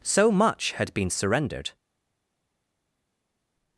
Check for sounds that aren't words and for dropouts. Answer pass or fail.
pass